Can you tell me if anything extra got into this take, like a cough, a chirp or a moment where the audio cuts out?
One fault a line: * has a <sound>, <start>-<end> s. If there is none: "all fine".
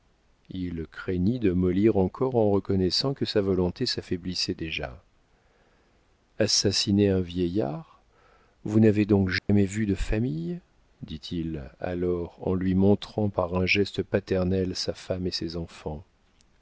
* has a dropout, 9.4-9.5 s